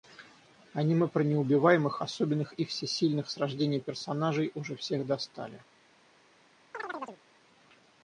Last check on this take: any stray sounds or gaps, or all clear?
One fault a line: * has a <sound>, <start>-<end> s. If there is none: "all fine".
* has a chirp, 6.7-7.2 s